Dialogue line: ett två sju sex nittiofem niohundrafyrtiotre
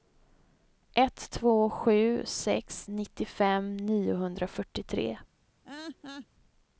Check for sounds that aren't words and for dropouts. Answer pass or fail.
fail